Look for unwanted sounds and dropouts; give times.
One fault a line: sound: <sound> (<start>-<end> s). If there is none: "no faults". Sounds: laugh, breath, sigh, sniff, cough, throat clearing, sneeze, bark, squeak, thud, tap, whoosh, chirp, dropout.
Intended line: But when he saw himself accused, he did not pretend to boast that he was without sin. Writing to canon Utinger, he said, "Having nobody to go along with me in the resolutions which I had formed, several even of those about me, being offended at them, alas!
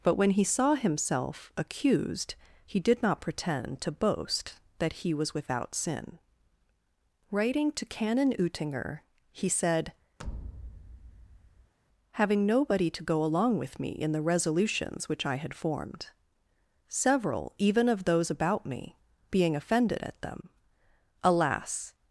sound: thud (10.2-11.7 s)